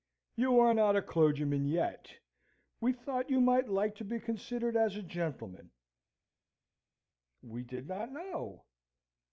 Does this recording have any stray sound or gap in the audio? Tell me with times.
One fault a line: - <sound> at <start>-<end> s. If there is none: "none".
none